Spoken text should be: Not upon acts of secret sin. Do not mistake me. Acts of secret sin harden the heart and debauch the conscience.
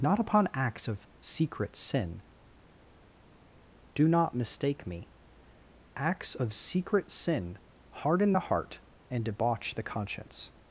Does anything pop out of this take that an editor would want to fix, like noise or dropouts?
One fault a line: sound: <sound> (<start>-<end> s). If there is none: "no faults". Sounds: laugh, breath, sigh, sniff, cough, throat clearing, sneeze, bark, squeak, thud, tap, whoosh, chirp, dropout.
no faults